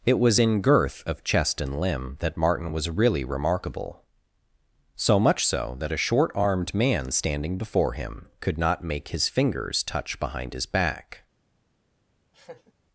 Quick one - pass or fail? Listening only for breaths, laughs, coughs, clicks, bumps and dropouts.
fail